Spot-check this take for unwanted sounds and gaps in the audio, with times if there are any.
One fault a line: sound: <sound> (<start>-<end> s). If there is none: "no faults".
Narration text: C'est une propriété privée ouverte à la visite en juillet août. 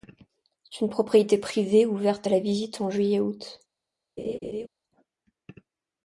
sound: laugh (4.2-4.7 s)